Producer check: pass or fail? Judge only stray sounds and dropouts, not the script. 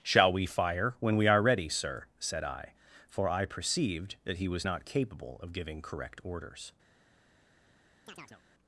fail